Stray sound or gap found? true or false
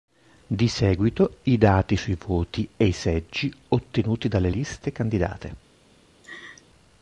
true